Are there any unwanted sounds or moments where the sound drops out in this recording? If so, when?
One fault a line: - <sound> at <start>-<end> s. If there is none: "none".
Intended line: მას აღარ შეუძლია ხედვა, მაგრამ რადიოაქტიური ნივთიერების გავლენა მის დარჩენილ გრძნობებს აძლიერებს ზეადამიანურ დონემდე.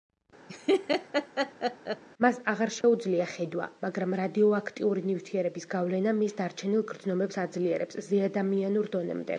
- laugh at 0.5-2.0 s
- dropout at 2.8-2.8 s